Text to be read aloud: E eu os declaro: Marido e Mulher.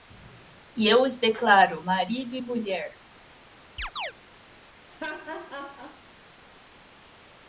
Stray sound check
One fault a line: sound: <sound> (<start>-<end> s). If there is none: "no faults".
sound: chirp (3.8-4.1 s)
sound: laugh (4.9-6.0 s)